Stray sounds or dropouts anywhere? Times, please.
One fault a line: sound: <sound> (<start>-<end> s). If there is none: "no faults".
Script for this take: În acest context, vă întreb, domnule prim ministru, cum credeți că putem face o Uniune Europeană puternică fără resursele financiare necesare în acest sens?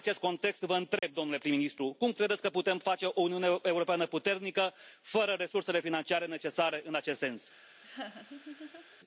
sound: dropout (1.0-1.0 s)
sound: laugh (7.8-9.0 s)